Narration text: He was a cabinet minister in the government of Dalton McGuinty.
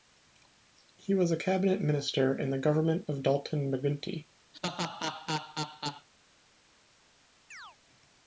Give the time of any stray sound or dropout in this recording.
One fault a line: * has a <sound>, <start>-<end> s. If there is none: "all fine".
* has a laugh, 4.5-6.1 s
* has a chirp, 7.5-7.8 s